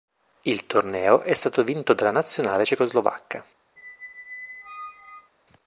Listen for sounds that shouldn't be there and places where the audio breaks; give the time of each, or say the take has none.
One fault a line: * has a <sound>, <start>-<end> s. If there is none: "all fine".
* has a squeak, 3.8-5.3 s